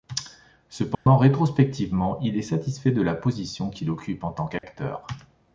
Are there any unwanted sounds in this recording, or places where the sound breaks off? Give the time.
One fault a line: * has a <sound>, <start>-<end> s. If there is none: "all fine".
* has a dropout, 0.9-1.1 s
* has a dropout, 4.6-4.6 s